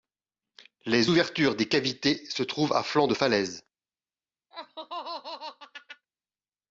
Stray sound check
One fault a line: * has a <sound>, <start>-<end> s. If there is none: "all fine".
* has a laugh, 4.5-6.1 s